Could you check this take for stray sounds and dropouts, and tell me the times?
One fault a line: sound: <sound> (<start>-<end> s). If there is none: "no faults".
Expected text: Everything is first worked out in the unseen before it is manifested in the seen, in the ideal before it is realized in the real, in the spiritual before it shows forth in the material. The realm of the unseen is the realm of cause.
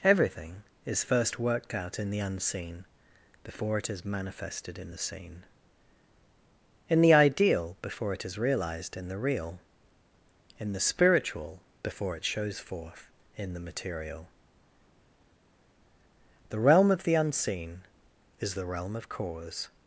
no faults